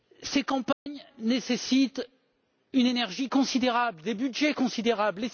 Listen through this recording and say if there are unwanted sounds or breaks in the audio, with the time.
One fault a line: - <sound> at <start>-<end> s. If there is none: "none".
- dropout at 0.7-0.9 s